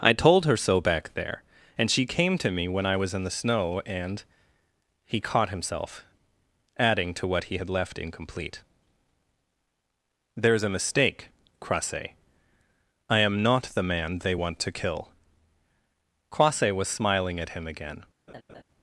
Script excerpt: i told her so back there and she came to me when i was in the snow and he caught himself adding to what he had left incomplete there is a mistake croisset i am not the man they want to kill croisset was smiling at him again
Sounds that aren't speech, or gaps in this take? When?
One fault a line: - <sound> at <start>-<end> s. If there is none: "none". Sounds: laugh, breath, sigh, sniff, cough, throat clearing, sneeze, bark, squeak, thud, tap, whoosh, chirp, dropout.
- laugh at 18.3-18.6 s